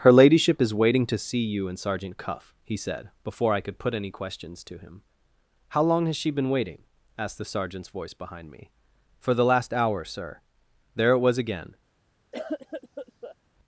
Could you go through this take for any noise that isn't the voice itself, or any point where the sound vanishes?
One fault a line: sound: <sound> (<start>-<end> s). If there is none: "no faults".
sound: cough (12.3-13.4 s)